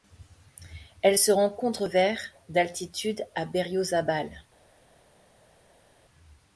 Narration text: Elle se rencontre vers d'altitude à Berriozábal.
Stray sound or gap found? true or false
false